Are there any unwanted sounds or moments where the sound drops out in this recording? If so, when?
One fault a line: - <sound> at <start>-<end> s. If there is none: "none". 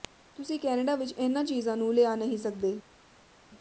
none